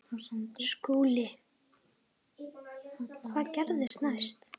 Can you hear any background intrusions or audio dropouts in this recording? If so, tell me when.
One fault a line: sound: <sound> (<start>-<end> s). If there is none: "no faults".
sound: dropout (3.9-3.9 s)